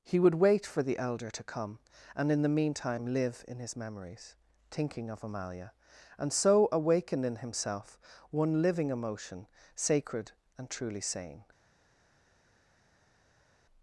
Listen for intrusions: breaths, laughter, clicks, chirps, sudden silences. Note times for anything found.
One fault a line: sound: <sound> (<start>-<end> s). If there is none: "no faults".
no faults